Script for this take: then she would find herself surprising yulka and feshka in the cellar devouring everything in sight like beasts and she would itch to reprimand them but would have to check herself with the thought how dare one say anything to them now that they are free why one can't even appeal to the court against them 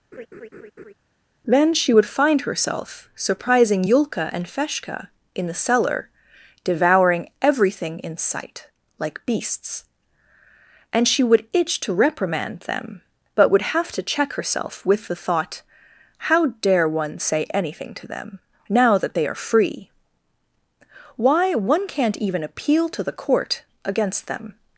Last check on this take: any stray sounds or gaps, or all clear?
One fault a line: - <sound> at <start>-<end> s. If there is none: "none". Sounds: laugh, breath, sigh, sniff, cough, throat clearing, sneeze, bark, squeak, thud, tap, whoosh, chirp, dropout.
- laugh at 0.1-0.9 s